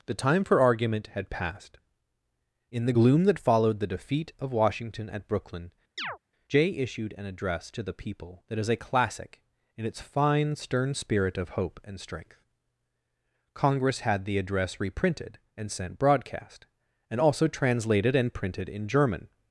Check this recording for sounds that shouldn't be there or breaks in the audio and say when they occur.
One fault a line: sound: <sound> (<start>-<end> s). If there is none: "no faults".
sound: chirp (6.0-6.2 s)